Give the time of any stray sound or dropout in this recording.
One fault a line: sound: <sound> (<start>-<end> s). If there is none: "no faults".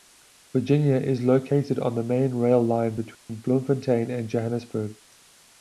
sound: dropout (3.1-3.3 s)